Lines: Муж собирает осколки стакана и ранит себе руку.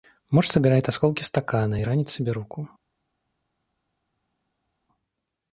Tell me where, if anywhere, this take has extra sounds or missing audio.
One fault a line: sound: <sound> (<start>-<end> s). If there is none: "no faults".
no faults